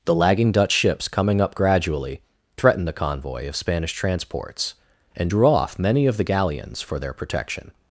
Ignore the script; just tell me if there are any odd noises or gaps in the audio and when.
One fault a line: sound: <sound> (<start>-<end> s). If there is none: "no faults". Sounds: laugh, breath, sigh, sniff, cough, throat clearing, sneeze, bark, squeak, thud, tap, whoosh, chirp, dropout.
no faults